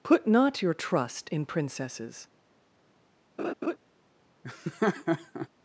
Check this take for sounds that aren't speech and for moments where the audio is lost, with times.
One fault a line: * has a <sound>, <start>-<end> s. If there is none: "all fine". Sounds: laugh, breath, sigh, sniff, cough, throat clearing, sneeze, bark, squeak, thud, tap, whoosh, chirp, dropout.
* has a laugh, 3.4-3.8 s
* has a laugh, 4.4-5.5 s